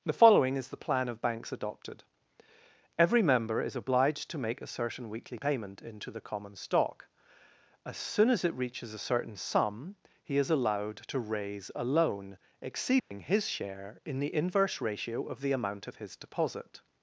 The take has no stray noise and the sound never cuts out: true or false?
false